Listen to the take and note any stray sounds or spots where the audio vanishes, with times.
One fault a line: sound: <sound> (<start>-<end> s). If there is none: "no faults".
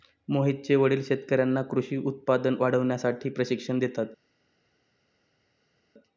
no faults